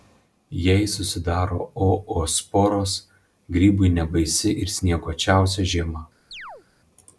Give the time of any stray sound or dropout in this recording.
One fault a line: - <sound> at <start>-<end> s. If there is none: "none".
- chirp at 6.3-6.6 s